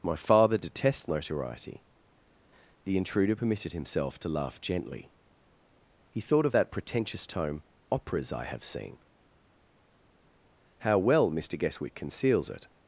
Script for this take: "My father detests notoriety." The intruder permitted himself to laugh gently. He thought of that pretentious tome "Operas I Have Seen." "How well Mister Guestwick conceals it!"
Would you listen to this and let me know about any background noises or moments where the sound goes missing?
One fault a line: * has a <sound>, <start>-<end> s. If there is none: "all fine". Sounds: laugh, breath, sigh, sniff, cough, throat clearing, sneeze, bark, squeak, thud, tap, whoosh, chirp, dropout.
all fine